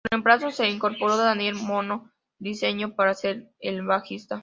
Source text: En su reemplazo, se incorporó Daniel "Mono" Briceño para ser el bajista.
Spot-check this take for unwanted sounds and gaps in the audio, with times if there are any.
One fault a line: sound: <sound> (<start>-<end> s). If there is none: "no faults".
no faults